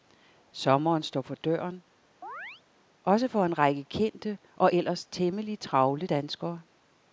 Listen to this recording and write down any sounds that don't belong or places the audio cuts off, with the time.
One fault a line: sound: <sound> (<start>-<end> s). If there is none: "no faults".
sound: chirp (2.2-2.6 s)